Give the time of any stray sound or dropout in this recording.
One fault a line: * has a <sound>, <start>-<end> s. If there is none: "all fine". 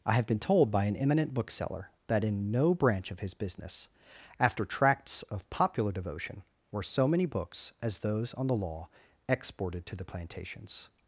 all fine